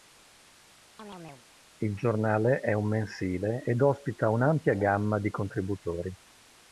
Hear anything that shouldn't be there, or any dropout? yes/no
yes